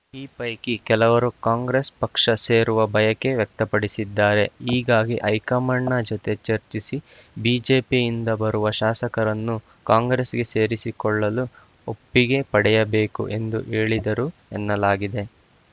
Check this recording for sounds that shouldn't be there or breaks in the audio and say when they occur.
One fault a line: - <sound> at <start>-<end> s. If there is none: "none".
none